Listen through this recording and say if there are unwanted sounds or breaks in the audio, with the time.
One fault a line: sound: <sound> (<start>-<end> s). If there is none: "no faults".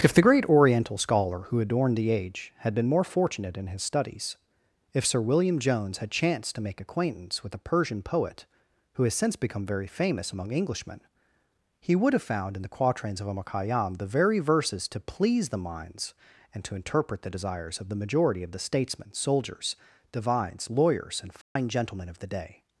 sound: dropout (21.4-21.6 s)